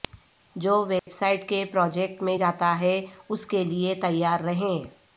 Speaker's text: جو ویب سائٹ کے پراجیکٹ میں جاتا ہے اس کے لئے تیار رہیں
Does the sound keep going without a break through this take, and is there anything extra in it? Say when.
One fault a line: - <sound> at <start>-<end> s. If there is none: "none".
- dropout at 1.0-1.1 s